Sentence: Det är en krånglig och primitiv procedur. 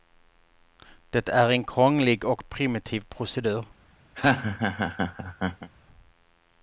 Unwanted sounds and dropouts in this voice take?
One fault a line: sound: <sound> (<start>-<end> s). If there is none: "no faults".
sound: laugh (4.2-5.7 s)